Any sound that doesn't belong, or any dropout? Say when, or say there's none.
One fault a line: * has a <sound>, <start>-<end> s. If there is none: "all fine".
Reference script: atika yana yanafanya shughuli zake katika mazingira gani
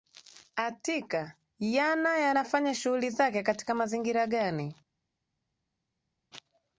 all fine